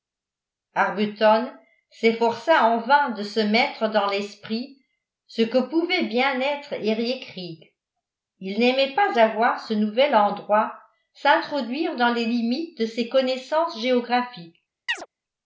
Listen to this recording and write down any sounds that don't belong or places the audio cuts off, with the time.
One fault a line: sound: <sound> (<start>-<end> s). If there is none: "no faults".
sound: chirp (14.9-15.1 s)